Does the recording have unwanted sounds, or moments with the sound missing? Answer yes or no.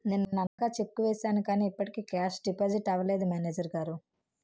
yes